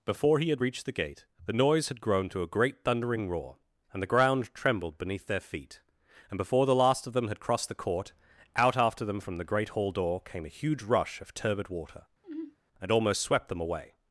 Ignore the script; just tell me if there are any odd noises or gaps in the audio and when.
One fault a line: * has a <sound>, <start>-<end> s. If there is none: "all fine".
* has a sigh, 12.2-12.6 s